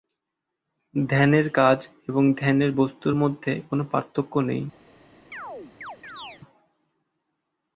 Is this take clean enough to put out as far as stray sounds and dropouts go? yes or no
no